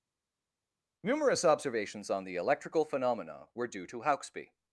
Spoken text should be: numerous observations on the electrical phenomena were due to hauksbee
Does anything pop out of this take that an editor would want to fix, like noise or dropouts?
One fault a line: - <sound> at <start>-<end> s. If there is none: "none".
none